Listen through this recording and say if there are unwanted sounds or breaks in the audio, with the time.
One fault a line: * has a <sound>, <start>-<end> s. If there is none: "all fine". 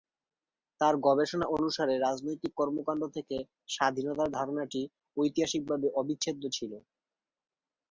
all fine